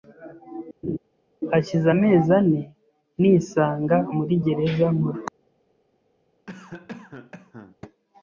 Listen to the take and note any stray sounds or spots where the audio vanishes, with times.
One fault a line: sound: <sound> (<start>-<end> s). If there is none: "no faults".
sound: laugh (0.8-1.0 s)
sound: cough (6.5-7.8 s)